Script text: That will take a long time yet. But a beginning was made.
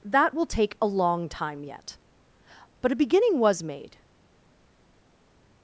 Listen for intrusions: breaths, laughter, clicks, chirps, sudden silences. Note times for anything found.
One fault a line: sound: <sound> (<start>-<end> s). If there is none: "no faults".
no faults